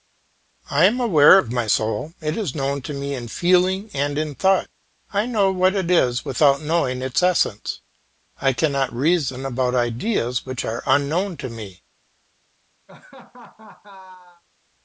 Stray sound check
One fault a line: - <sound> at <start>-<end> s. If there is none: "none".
- laugh at 12.9-14.4 s